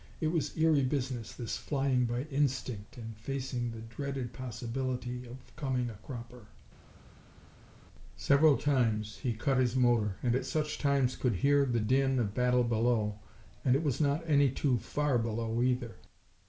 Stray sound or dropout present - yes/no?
no